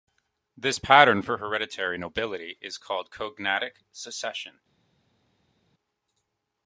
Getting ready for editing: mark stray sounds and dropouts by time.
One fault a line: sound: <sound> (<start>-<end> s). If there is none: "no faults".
no faults